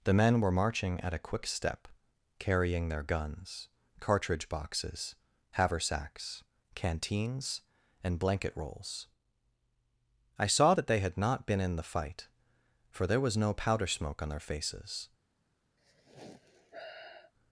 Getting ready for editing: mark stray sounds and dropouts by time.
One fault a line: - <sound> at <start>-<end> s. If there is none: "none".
- sigh at 15.8-17.3 s